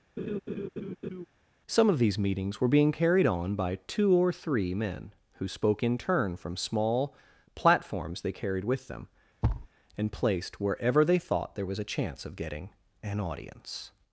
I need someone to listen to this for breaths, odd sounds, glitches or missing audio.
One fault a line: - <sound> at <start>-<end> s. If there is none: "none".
- laugh at 0.2-1.3 s
- thud at 9.4-9.7 s